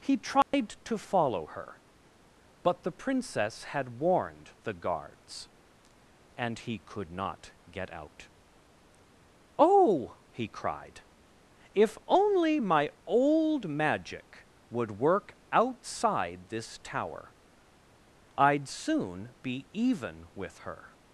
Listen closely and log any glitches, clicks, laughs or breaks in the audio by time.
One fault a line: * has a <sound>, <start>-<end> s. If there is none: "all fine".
* has a dropout, 0.4-0.5 s